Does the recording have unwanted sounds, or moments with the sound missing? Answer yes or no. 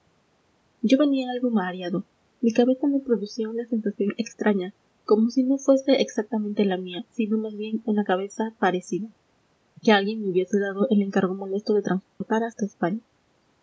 yes